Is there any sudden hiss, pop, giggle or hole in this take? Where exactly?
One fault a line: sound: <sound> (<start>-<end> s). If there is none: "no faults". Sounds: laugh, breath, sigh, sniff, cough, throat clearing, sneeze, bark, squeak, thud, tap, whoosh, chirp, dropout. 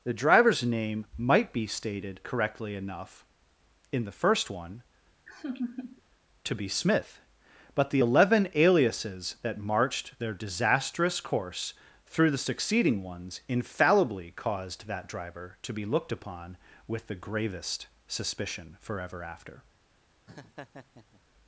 sound: laugh (5.3-6.0 s)
sound: laugh (20.3-21.2 s)